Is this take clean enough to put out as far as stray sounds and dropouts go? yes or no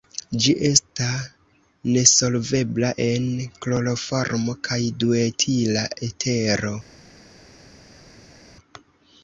yes